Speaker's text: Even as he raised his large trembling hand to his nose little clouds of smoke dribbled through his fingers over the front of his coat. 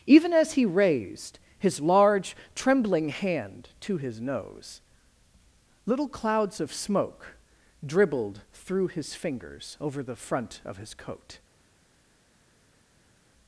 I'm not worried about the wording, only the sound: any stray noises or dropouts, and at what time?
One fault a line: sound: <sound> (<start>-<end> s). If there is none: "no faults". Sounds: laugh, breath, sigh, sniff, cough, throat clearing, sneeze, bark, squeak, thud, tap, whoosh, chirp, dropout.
no faults